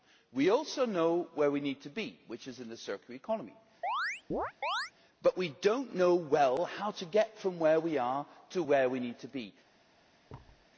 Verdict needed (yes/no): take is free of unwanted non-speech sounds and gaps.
no